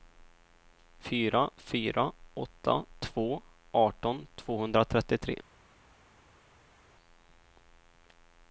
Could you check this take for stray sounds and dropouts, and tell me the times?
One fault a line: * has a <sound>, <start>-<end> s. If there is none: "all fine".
all fine